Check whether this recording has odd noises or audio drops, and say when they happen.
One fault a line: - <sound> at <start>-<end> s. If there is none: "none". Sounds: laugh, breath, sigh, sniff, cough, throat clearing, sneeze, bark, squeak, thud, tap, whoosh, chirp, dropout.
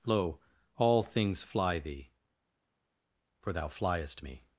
none